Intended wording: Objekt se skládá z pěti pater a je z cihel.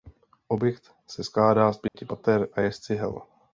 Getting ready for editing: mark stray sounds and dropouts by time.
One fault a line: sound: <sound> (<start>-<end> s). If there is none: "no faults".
sound: dropout (1.9-1.9 s)